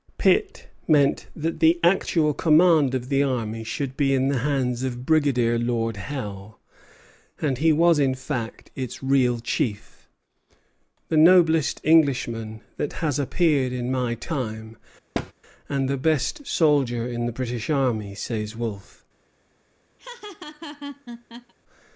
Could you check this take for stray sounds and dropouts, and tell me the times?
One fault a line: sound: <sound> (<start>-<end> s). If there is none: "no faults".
sound: thud (15.1-15.3 s)
sound: laugh (20.0-21.5 s)